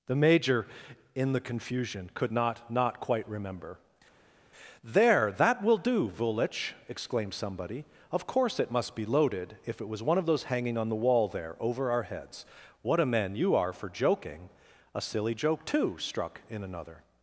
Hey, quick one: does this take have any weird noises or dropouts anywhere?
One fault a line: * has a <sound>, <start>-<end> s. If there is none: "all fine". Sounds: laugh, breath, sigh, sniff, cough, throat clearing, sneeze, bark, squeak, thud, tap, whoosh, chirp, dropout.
all fine